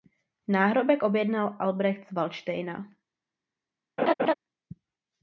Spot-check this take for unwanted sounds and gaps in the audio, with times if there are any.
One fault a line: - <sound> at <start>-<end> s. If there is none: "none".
- laugh at 4.0-4.3 s